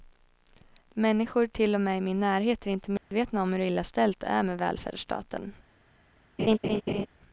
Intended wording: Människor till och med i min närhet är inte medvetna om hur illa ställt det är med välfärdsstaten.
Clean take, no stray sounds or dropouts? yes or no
no